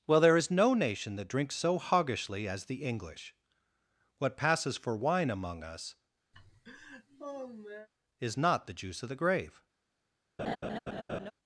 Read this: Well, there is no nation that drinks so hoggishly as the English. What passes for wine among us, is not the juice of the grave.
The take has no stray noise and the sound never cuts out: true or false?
false